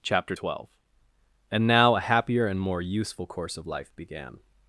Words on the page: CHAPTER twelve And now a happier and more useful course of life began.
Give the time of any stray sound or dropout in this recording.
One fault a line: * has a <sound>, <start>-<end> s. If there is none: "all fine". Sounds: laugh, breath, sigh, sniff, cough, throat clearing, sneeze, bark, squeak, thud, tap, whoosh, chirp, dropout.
all fine